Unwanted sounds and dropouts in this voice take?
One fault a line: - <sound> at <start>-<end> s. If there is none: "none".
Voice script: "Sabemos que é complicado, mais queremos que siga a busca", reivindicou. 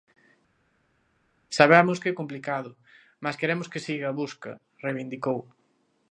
none